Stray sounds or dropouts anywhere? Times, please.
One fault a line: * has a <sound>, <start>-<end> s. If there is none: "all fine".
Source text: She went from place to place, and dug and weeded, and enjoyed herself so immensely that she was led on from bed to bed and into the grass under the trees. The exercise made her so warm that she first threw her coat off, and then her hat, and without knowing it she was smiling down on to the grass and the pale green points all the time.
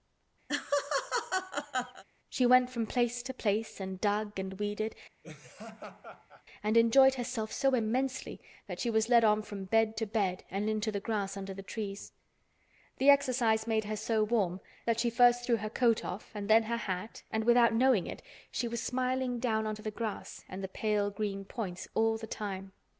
* has a laugh, 0.5-2.0 s
* has a laugh, 5.2-6.4 s